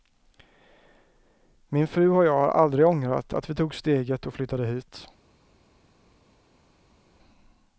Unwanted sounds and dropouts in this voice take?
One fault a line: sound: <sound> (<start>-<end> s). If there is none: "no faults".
no faults